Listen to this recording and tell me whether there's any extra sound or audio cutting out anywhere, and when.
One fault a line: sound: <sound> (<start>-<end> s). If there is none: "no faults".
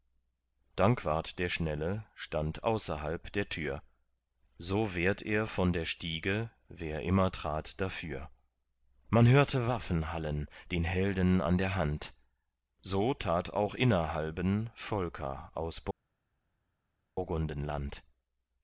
no faults